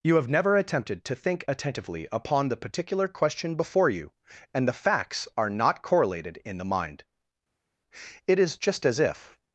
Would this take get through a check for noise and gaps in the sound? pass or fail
pass